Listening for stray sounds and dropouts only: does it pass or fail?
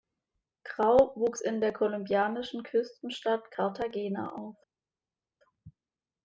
pass